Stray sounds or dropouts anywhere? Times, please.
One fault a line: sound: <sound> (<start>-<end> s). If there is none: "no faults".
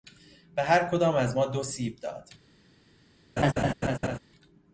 sound: laugh (3.4-4.2 s)